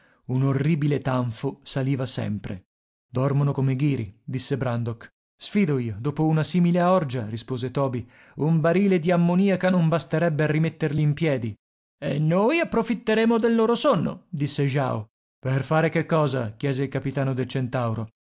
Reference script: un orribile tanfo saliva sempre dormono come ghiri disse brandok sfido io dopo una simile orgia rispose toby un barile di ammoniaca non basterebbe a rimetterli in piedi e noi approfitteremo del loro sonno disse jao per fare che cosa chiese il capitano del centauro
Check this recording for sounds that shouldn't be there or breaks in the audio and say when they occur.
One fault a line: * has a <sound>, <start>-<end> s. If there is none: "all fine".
all fine